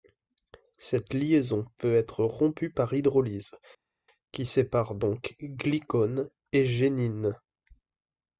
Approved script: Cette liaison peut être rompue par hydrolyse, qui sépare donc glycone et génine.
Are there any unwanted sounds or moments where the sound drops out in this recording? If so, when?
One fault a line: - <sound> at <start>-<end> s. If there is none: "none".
none